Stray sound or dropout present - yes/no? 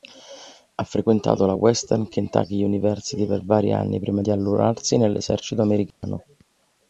yes